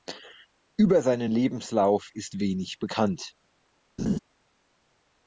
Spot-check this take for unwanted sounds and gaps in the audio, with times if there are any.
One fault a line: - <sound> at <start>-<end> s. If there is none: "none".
- laugh at 4.0-4.2 s